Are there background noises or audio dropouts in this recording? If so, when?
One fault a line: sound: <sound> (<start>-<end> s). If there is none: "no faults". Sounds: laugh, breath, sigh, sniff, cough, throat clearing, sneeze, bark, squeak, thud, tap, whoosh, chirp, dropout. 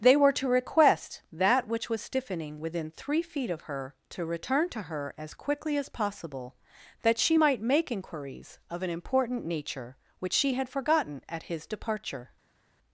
no faults